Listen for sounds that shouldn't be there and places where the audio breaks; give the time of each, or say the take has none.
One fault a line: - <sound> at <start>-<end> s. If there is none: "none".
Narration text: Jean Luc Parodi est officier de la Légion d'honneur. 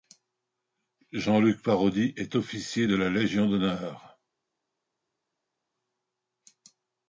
none